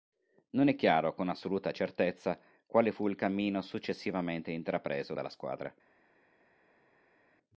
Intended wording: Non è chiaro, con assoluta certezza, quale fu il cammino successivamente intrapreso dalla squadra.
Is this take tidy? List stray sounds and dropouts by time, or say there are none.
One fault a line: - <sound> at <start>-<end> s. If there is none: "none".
none